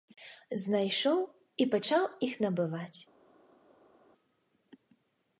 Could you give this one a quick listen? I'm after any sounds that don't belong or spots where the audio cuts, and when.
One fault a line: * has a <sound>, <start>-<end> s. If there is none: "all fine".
all fine